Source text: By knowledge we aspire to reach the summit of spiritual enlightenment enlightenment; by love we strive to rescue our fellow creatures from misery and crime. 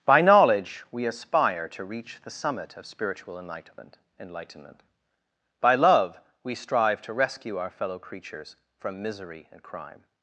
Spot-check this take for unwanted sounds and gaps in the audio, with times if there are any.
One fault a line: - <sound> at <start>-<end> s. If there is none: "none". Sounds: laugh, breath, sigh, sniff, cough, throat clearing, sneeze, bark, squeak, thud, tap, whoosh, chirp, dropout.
none